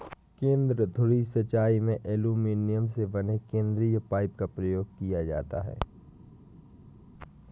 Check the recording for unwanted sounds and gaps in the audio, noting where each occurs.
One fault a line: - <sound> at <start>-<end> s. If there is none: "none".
none